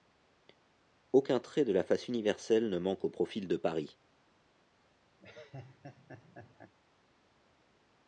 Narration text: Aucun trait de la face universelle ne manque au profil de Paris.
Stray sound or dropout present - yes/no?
yes